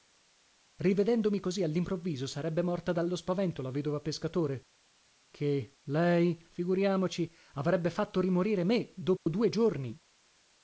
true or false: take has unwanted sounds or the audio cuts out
true